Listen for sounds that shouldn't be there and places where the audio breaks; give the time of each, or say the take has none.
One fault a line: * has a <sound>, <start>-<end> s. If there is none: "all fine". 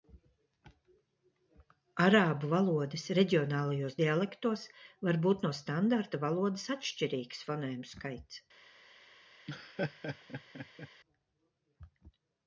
* has a laugh, 9.5-10.9 s